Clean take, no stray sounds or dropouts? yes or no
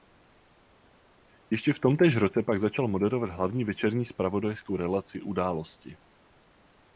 yes